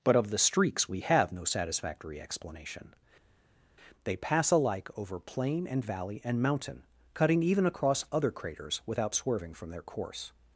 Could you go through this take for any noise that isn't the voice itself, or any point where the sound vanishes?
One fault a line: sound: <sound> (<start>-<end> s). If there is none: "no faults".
no faults